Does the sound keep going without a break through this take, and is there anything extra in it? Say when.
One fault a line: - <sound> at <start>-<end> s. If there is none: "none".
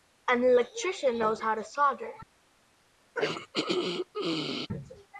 - throat clearing at 3.1-4.7 s